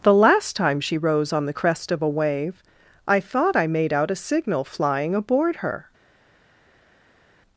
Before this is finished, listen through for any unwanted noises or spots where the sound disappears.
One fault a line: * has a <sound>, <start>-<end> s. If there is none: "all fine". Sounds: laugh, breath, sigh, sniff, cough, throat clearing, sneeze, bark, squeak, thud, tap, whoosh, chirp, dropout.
all fine